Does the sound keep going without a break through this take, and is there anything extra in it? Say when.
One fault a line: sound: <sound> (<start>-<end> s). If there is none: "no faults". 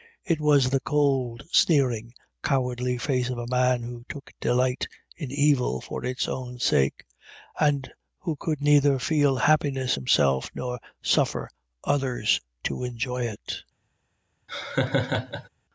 sound: laugh (14.5-15.5 s)